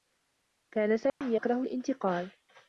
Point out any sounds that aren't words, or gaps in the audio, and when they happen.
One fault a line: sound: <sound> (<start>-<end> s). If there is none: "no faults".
sound: dropout (1.1-1.2 s)